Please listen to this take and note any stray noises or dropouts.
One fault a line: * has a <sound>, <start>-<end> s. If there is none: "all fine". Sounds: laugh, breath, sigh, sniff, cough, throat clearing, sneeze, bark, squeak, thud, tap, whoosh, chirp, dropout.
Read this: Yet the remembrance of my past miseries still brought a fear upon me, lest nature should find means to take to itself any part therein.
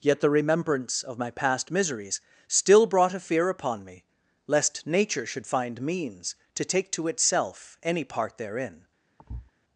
* has a thud, 9.2-9.5 s